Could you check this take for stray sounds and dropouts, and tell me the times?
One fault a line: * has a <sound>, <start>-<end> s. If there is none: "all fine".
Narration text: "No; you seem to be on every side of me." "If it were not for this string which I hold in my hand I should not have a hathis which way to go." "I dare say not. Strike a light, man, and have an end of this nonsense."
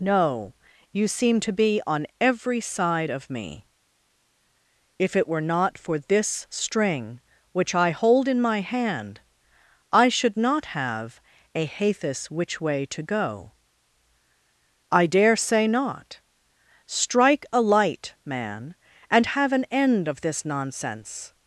all fine